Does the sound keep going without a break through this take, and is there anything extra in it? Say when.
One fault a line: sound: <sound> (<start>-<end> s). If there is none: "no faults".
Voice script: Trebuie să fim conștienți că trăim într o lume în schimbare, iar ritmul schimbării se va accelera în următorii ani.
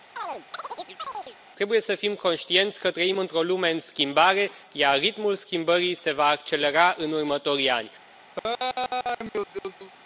sound: chirp (0.2-1.4 s)
sound: laugh (8.4-9.9 s)